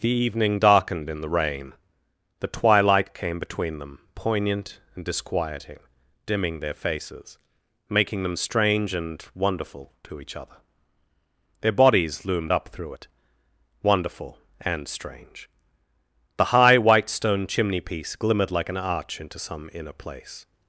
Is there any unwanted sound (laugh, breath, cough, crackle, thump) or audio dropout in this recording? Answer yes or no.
no